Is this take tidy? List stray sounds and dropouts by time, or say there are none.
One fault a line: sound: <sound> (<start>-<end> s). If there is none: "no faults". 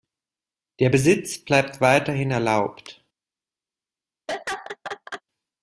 sound: laugh (4.3-5.2 s)